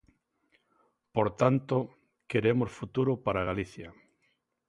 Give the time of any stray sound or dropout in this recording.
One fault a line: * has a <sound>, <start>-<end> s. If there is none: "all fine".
all fine